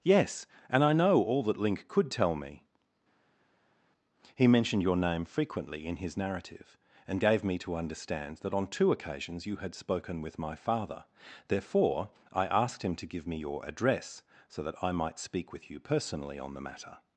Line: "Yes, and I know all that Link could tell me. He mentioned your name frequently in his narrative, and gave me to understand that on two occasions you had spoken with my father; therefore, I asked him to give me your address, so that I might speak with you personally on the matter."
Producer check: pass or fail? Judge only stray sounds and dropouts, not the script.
pass